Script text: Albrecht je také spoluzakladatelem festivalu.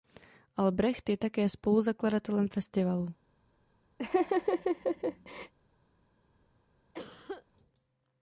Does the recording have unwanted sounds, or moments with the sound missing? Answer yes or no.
yes